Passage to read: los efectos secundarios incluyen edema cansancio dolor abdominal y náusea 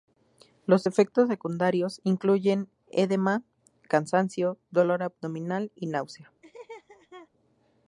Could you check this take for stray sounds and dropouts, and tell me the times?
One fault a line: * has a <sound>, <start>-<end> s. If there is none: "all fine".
* has a laugh, 6.4-7.3 s